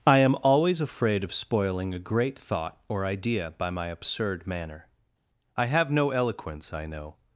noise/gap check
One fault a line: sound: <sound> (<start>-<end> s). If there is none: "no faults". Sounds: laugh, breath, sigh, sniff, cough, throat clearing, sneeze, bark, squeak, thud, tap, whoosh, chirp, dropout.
no faults